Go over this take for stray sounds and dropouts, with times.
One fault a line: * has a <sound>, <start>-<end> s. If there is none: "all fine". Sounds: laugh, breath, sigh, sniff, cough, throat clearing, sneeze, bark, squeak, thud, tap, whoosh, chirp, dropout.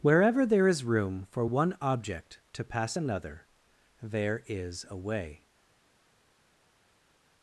all fine